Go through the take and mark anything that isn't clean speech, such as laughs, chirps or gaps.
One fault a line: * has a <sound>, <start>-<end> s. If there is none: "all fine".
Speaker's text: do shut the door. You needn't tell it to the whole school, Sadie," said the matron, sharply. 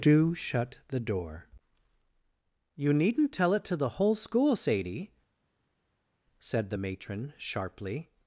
all fine